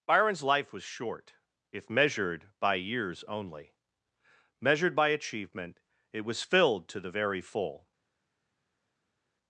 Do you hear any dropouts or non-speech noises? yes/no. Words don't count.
no